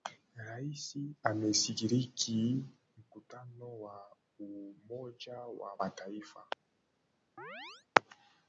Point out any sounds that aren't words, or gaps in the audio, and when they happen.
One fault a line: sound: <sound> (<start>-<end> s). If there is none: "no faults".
sound: chirp (7.4-7.9 s)